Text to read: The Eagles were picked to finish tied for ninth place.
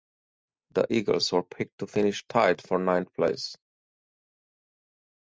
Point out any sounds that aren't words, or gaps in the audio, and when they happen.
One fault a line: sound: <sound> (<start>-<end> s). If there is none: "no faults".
no faults